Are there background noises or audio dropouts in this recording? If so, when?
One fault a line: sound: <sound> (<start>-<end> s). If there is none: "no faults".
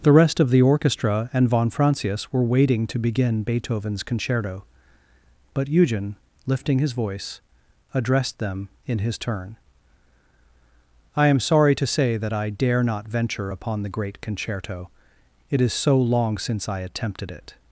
no faults